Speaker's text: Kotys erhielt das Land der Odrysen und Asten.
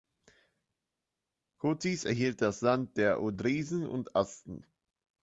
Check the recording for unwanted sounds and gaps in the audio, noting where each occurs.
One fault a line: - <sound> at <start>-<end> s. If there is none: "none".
none